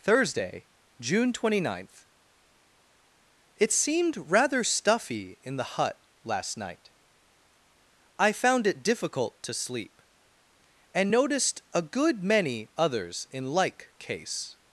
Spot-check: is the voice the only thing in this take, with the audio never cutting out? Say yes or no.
yes